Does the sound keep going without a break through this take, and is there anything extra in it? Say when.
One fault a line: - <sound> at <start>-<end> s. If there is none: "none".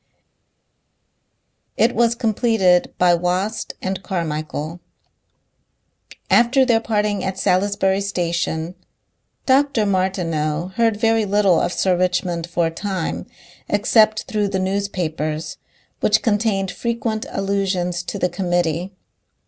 none